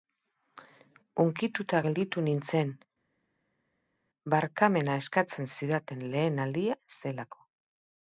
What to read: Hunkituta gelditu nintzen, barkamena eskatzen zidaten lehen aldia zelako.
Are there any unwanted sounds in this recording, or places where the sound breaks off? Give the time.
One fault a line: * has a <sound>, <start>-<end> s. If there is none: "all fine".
all fine